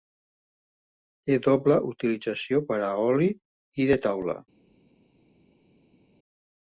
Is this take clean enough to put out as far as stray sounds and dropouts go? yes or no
yes